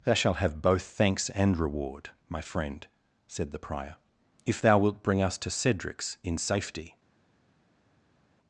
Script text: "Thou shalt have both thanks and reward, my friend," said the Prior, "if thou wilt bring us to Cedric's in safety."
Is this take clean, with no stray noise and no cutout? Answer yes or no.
yes